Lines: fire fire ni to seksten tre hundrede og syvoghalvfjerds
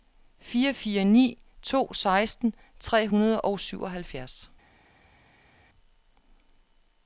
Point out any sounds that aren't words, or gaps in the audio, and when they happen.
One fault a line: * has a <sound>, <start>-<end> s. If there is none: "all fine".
all fine